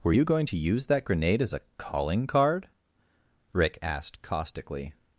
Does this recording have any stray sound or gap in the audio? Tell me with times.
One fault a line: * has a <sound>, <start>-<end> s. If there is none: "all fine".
all fine